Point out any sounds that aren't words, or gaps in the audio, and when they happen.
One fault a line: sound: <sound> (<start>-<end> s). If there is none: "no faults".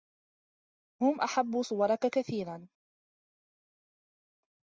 no faults